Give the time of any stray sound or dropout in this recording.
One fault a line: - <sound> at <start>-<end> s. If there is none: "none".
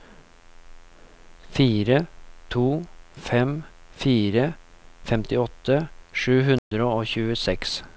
- dropout at 6.6-6.7 s